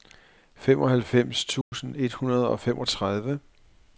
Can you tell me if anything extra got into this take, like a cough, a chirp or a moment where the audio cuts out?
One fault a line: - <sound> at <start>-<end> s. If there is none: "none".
- dropout at 1.6-1.7 s